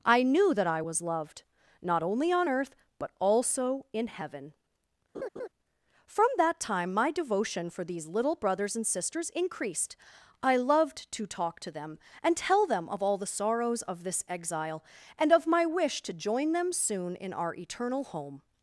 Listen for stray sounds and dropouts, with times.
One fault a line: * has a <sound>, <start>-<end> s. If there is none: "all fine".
* has a laugh, 5.1-5.5 s